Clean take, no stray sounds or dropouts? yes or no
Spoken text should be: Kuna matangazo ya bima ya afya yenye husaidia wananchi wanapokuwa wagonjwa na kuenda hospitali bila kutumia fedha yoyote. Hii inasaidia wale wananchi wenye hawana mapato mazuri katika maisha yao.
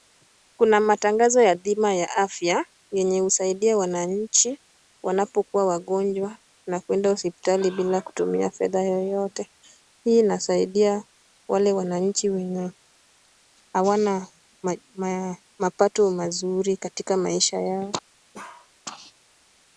no